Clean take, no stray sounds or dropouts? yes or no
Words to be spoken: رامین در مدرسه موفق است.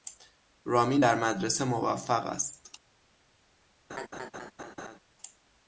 no